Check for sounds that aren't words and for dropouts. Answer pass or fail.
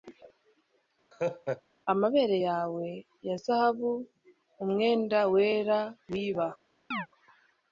fail